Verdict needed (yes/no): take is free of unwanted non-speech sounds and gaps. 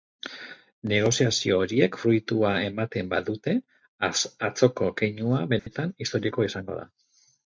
no